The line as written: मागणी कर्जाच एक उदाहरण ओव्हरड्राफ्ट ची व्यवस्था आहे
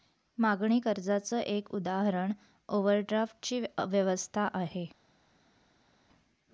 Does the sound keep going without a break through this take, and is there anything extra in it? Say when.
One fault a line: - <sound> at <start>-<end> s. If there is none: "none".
none